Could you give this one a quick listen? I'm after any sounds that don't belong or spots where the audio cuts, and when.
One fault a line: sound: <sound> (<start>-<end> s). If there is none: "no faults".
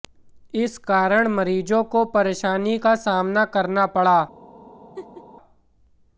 sound: laugh (5.0-5.2 s)